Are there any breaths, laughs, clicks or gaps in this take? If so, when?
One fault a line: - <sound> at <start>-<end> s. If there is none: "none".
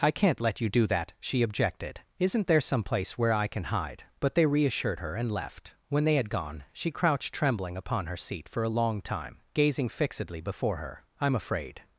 none